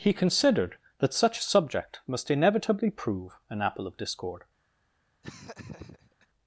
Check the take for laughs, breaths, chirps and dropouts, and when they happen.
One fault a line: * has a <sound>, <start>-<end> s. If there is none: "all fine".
* has a laugh, 5.2-6.3 s